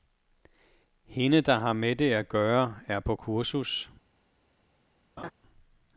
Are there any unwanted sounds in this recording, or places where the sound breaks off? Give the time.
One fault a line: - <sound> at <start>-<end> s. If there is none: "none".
- laugh at 5.2-5.3 s